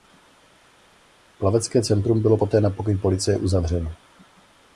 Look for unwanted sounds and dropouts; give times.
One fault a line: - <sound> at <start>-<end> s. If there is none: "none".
none